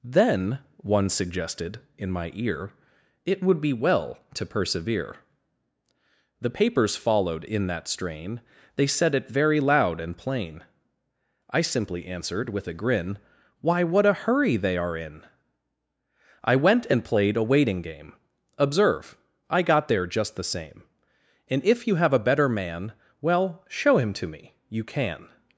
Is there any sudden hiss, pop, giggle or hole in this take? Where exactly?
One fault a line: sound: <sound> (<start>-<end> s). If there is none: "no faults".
no faults